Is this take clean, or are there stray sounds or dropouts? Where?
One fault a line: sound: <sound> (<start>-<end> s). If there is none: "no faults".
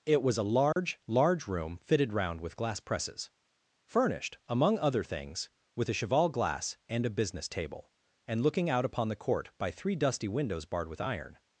sound: dropout (0.7-0.8 s)